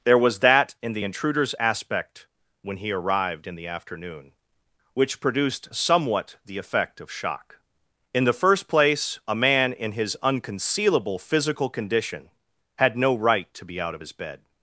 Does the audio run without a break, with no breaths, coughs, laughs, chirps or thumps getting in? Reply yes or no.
yes